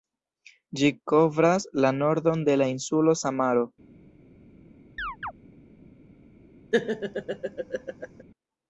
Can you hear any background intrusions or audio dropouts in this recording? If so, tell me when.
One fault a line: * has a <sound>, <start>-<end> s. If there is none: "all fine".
* has a chirp, 5.0-5.3 s
* has a laugh, 6.7-8.2 s